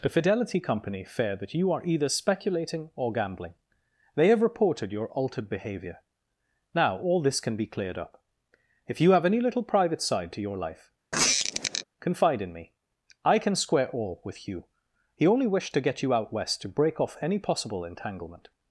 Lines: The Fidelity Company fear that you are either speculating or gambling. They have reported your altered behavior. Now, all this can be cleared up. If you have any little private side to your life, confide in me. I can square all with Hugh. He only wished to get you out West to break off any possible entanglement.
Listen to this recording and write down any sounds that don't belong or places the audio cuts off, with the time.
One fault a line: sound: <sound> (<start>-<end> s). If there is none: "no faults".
sound: squeak (11.1-11.8 s)